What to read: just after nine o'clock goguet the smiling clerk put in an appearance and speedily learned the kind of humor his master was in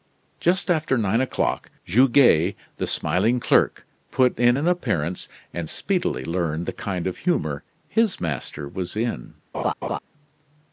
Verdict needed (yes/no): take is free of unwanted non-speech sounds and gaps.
no